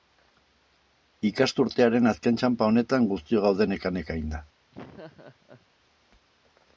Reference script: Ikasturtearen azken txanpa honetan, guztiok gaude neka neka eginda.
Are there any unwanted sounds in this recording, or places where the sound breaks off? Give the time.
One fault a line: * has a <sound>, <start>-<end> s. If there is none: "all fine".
* has a laugh, 4.7-5.7 s